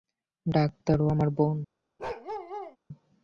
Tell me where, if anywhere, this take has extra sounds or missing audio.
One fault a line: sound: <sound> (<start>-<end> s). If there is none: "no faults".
sound: bark (2.0-2.8 s)